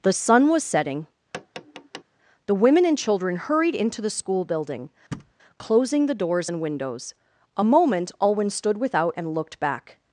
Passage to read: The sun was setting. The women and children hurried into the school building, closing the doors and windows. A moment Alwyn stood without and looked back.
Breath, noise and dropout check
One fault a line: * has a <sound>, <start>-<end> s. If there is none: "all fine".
* has a tap, 1.3-2.0 s
* has a thud, 5.1-5.3 s